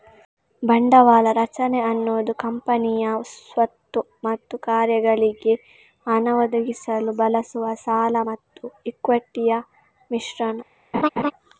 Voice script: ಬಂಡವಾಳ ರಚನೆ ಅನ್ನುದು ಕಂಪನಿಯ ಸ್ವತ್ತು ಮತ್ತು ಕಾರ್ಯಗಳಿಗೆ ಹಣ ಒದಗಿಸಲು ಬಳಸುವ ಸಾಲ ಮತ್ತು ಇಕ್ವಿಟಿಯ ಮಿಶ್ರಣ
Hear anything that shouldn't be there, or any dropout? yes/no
yes